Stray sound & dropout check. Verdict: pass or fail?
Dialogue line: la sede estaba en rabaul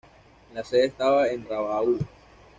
pass